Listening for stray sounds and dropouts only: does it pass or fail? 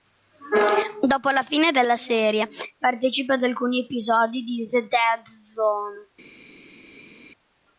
pass